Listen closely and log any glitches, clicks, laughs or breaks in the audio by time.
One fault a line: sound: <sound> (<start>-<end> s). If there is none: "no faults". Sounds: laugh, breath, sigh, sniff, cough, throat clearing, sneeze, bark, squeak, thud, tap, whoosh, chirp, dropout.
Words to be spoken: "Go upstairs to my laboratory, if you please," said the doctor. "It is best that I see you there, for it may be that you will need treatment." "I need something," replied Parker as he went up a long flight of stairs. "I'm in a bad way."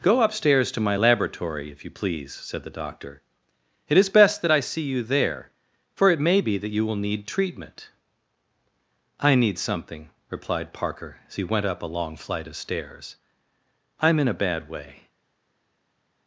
no faults